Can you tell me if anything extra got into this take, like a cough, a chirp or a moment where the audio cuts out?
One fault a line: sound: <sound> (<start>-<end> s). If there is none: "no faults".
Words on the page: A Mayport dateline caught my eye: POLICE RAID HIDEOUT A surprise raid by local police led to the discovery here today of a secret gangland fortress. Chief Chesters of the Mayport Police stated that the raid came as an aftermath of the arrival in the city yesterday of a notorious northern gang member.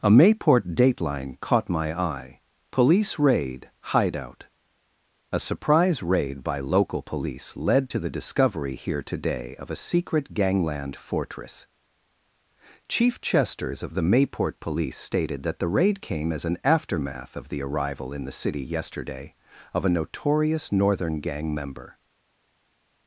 no faults